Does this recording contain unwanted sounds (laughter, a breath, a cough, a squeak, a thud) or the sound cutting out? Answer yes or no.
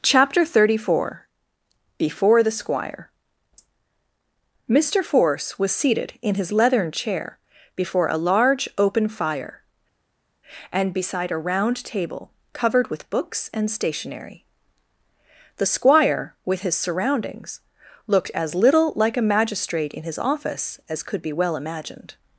no